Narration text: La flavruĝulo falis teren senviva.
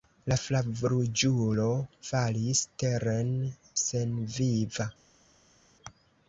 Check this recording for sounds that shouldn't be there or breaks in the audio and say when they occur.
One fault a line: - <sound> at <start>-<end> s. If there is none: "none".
none